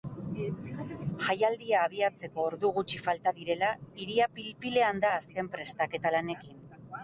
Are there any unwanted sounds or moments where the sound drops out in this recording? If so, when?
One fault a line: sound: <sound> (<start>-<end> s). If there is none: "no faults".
no faults